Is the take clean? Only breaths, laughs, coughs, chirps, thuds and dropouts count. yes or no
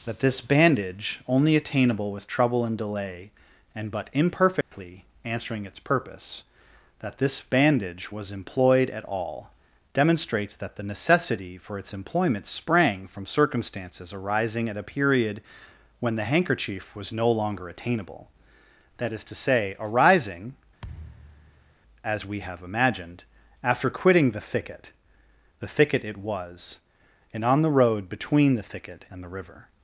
no